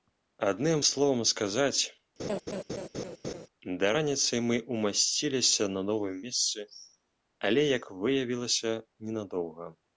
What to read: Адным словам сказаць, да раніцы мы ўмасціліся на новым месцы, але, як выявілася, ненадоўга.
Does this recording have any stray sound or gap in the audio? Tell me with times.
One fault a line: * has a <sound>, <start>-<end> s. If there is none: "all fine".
* has a laugh, 2.2-3.5 s